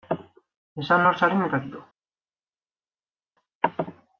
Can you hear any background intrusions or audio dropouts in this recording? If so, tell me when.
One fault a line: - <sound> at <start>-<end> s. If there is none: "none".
none